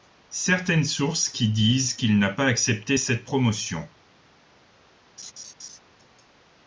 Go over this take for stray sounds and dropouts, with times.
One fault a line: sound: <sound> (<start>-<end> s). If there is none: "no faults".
sound: laugh (5.2-5.8 s)